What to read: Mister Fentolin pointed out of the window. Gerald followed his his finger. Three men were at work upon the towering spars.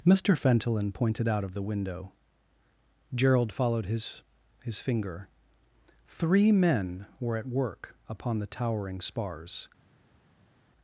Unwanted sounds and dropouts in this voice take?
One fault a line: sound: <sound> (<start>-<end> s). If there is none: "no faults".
no faults